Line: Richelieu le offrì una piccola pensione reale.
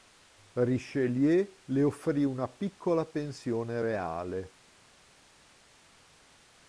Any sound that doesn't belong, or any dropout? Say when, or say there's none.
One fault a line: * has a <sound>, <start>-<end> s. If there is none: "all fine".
all fine